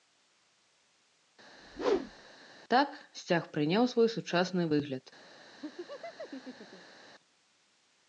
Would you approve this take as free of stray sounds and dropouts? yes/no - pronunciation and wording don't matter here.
no